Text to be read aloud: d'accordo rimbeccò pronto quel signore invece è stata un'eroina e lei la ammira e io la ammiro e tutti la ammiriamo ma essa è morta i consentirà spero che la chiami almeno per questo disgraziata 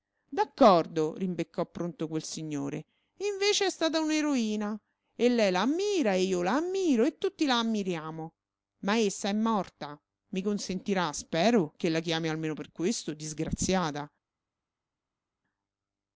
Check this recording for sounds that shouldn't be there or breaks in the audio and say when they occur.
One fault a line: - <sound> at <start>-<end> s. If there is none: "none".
none